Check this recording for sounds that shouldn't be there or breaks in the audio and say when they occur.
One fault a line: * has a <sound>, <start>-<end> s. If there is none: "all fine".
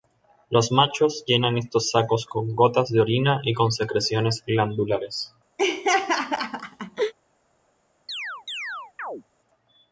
* has a laugh, 5.6-7.1 s
* has a chirp, 8.1-9.2 s